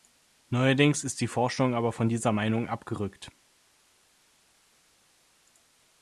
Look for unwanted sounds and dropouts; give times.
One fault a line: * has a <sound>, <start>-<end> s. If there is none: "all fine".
all fine